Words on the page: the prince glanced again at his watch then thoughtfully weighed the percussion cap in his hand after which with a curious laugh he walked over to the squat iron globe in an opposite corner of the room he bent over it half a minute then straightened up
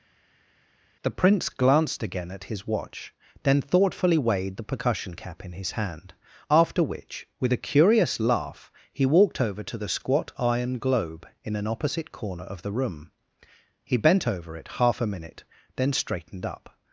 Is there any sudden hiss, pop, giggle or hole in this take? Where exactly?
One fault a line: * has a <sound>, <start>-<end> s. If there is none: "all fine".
all fine